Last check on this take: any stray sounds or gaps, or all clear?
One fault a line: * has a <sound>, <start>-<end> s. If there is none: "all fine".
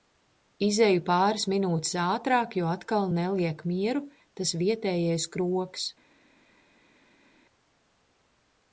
all fine